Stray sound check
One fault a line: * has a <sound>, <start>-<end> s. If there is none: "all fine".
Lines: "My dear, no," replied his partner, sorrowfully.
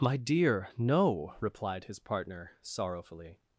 all fine